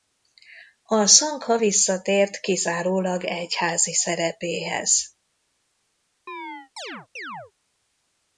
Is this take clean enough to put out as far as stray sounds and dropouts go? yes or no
no